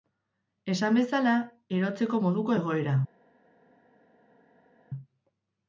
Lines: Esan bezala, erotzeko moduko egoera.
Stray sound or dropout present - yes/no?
no